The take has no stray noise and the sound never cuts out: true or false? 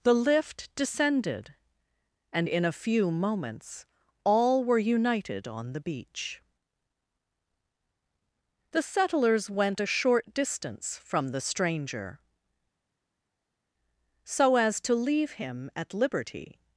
true